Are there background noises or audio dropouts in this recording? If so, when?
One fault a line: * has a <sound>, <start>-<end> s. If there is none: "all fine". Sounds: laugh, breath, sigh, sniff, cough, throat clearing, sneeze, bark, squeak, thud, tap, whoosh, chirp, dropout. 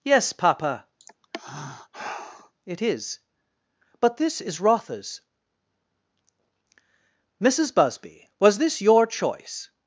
* has a sigh, 1.0-2.5 s